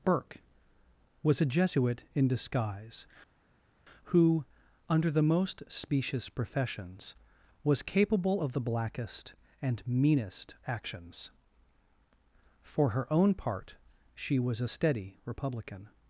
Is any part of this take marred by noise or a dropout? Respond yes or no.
no